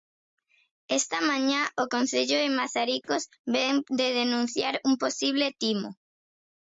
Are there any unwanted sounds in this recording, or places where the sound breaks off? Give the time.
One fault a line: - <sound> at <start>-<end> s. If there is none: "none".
- dropout at 3.0-3.1 s